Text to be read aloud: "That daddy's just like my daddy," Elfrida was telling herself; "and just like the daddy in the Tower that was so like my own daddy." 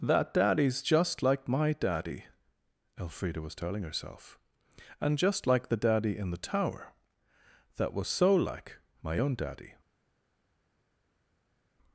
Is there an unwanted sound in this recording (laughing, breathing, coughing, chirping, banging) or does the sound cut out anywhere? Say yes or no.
no